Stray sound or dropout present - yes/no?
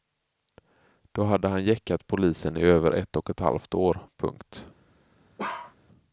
yes